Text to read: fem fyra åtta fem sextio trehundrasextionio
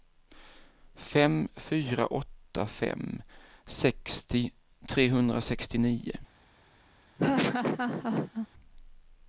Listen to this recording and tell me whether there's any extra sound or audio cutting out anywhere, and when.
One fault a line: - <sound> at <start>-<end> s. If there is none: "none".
- laugh at 7.2-8.5 s